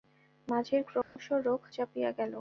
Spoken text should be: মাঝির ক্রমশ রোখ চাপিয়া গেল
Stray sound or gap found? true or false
true